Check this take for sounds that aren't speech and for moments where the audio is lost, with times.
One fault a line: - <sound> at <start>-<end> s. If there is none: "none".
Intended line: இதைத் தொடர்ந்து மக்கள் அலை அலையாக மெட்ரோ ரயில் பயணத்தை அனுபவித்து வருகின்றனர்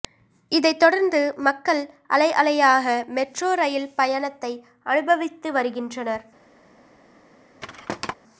- thud at 7.6-8.1 s